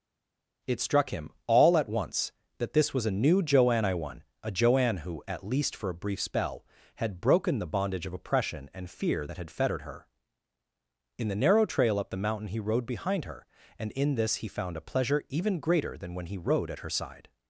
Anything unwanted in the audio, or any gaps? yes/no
no